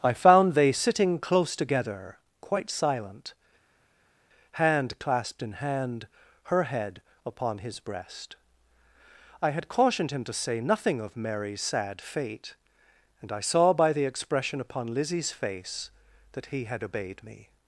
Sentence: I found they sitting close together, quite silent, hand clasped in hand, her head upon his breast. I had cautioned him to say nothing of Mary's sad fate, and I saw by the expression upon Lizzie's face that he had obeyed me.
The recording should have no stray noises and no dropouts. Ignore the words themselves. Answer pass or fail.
pass